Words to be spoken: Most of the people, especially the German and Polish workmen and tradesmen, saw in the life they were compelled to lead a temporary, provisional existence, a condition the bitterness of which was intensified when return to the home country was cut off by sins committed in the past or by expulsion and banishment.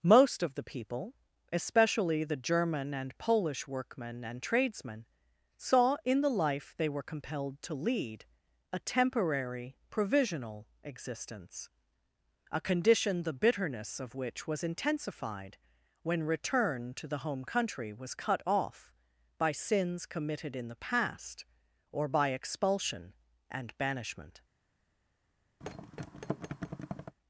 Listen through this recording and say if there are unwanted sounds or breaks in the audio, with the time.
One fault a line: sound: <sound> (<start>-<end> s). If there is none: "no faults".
sound: thud (25.6-27.2 s)